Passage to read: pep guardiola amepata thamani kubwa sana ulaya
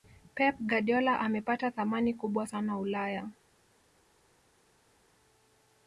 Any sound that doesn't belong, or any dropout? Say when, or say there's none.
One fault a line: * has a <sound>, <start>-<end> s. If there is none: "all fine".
all fine